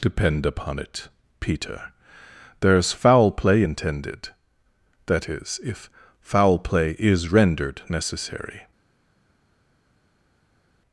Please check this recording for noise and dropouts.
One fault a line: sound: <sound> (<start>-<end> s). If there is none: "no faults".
no faults